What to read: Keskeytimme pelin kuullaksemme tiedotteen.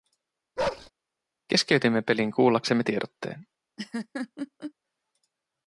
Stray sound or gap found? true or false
true